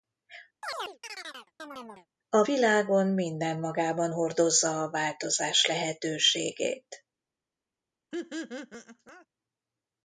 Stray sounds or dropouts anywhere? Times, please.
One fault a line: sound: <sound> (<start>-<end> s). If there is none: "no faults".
sound: chirp (0.6-2.1 s)
sound: laugh (8.1-9.3 s)